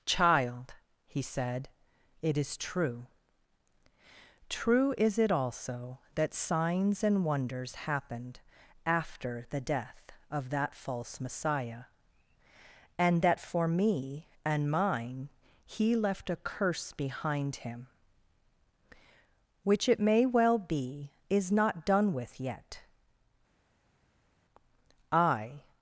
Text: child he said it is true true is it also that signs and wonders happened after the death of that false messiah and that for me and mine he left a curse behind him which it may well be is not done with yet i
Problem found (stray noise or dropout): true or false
false